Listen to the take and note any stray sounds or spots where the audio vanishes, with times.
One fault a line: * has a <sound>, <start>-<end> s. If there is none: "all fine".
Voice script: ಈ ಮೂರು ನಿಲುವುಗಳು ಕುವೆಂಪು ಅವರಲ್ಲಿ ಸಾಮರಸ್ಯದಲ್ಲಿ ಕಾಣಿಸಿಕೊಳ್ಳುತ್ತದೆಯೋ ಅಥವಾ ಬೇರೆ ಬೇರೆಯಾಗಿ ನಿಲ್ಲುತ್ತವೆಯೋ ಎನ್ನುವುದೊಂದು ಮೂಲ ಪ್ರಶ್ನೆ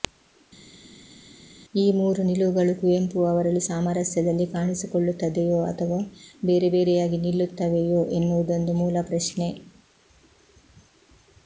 all fine